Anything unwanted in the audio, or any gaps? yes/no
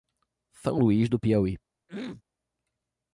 yes